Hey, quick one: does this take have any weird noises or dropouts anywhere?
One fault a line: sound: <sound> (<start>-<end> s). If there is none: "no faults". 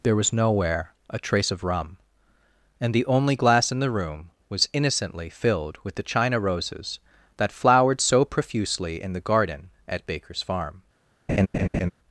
sound: laugh (11.3-11.9 s)